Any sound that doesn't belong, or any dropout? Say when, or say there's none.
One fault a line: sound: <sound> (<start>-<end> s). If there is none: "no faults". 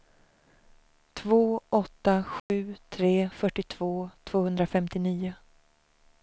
sound: dropout (2.4-2.5 s)